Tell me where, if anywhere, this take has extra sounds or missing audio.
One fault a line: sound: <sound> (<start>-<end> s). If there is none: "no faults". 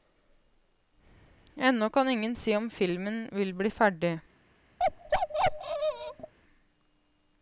sound: bark (4.8-6.3 s)